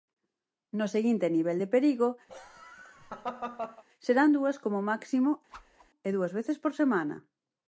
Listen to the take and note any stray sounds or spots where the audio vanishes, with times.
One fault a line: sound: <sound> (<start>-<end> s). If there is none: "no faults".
sound: laugh (2.3-3.8 s)
sound: whoosh (5.5-5.9 s)